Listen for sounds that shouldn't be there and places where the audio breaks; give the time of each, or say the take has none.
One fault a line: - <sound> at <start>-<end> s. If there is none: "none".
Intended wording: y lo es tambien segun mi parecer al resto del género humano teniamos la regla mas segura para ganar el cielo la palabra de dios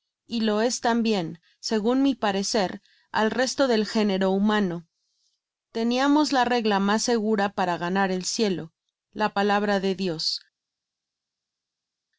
none